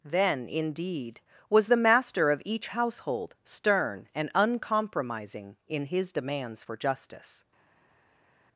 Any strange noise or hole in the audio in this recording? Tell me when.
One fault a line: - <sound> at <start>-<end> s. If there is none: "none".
none